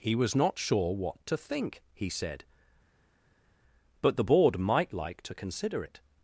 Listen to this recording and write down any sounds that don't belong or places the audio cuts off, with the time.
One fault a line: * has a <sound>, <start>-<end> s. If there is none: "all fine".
all fine